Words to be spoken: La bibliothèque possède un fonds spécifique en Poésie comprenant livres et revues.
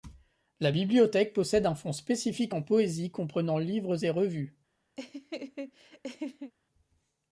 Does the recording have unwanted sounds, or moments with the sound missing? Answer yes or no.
yes